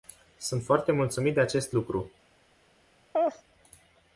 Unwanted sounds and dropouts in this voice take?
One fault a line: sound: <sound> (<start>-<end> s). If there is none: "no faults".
sound: laugh (3.1-3.4 s)